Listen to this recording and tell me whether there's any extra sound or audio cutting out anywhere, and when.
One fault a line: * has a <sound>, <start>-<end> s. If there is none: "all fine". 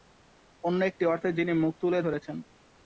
all fine